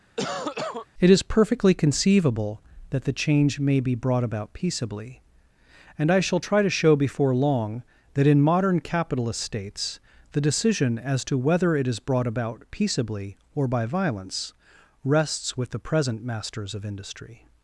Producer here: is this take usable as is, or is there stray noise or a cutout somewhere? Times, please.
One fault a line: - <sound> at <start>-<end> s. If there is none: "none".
- cough at 0.2-0.9 s